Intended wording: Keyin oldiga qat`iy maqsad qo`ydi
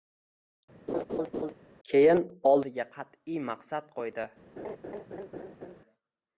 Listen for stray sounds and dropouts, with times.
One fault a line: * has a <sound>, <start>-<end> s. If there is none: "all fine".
* has a laugh, 0.9-1.5 s
* has a laugh, 4.6-5.8 s